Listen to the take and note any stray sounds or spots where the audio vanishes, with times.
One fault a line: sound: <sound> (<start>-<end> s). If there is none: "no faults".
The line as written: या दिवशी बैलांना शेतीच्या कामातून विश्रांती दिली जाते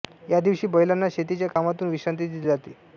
sound: dropout (1.5-1.6 s)